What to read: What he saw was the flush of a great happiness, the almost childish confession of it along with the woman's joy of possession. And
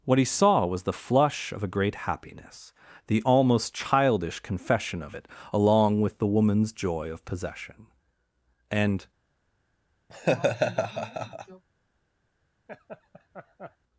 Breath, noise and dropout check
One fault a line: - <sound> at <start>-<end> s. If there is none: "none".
- laugh at 10.1-11.6 s
- laugh at 12.7-13.8 s